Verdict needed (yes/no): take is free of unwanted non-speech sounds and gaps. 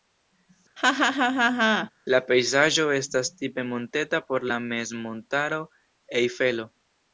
no